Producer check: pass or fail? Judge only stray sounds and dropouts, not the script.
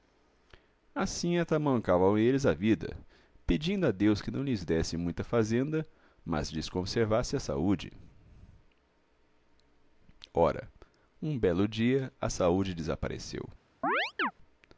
fail